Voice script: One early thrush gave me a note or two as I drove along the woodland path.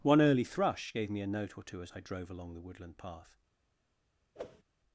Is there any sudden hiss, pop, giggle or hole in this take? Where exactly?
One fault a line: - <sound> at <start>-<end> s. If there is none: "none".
- whoosh at 4.3-4.6 s